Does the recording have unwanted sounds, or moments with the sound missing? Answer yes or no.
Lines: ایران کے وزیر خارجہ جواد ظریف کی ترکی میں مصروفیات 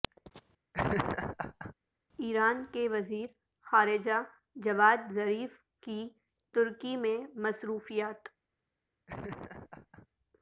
yes